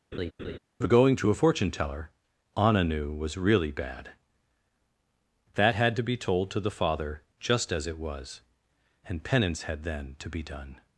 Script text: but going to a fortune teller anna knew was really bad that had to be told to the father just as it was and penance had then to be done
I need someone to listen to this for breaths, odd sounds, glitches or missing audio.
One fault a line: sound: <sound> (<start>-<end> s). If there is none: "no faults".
sound: laugh (0.1-0.6 s)